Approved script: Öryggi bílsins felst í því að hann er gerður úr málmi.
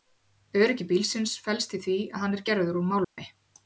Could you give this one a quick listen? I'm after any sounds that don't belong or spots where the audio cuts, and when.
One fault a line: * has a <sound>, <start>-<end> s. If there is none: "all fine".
* has a dropout, 3.0-3.2 s